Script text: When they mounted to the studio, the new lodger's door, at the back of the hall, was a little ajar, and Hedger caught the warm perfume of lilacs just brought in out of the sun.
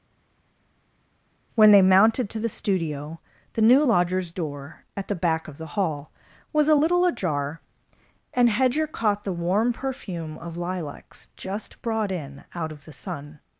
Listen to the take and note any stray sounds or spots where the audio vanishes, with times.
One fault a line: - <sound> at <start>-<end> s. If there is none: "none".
none